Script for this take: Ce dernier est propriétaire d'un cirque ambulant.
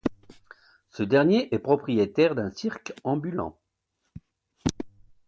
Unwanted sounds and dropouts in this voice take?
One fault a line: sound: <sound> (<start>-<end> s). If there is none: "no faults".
no faults